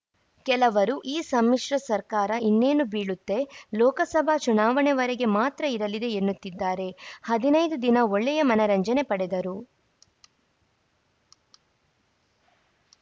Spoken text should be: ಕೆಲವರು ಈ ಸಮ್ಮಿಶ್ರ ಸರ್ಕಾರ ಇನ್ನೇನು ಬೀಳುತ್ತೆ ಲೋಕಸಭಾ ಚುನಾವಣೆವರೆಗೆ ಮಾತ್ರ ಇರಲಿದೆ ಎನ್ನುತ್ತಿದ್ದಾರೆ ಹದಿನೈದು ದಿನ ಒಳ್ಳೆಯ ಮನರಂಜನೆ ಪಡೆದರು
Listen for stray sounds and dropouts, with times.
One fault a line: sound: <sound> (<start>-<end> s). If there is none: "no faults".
no faults